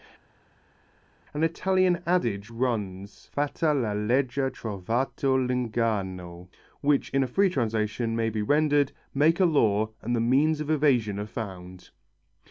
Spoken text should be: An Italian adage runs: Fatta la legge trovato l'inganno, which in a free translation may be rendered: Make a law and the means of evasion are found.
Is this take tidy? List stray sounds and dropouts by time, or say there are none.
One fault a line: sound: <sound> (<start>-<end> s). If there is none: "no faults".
no faults